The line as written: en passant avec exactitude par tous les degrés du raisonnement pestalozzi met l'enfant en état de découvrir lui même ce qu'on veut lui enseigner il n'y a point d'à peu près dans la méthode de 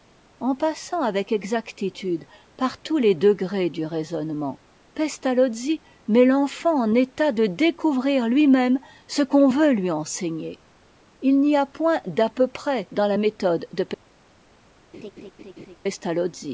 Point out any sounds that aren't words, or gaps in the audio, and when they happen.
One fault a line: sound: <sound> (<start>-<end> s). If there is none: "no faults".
sound: laugh (14.9-15.8 s)